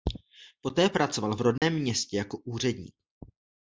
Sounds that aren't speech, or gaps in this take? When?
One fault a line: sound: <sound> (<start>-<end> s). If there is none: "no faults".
sound: dropout (1.6-1.6 s)